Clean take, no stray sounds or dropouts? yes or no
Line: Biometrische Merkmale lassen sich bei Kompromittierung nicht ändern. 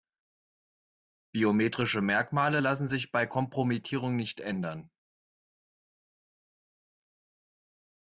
yes